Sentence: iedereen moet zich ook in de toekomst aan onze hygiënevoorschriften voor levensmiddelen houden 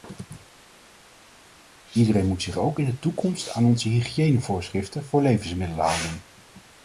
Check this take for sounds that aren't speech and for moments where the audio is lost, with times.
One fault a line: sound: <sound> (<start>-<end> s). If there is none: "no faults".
no faults